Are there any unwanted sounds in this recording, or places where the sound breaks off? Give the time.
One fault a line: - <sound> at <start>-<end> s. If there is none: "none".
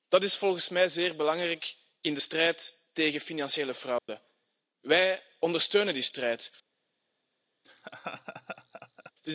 - dropout at 4.0-4.1 s
- laugh at 7.6-9.1 s